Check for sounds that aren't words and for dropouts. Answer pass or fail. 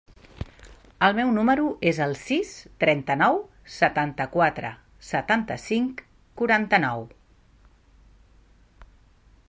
pass